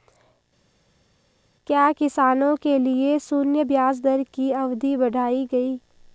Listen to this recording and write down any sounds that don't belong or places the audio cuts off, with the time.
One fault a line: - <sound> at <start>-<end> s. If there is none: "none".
none